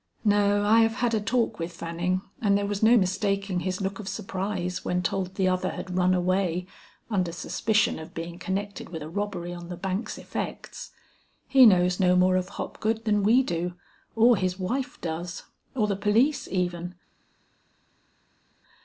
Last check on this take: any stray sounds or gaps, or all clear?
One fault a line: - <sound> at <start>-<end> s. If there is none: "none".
none